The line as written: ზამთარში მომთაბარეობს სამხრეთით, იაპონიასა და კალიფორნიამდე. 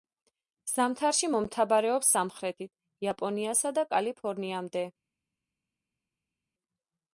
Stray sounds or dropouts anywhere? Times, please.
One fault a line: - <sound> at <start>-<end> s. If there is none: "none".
none